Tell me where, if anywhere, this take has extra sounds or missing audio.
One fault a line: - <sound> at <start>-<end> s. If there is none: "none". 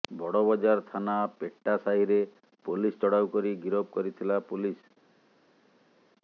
none